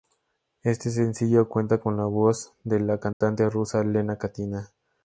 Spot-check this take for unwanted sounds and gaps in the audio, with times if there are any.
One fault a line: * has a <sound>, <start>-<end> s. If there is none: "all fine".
* has a dropout, 3.1-3.2 s